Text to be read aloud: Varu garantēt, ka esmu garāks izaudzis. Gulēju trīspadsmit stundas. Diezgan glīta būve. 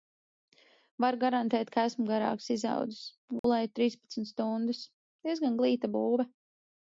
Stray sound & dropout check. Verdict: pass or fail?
fail